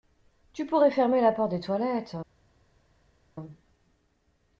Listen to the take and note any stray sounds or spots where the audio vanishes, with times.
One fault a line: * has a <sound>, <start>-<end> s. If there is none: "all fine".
all fine